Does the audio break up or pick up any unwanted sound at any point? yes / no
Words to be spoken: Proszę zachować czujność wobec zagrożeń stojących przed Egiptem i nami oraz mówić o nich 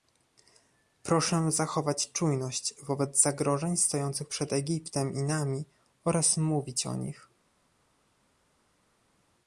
no